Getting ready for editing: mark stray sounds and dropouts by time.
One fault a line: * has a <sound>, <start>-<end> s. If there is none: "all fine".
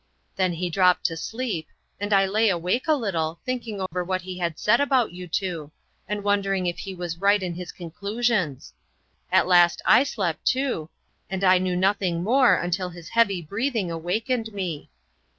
* has a dropout, 3.9-3.9 s